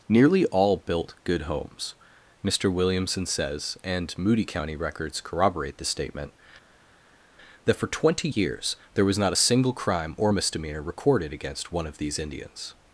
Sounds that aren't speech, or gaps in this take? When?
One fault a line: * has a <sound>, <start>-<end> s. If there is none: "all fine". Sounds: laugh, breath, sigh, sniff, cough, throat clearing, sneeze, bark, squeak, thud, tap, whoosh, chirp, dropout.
all fine